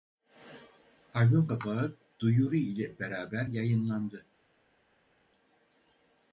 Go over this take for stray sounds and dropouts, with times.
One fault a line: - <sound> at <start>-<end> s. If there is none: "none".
none